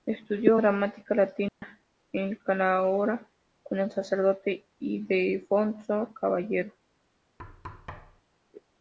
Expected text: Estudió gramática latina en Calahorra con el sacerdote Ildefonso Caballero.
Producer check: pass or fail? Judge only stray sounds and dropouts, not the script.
fail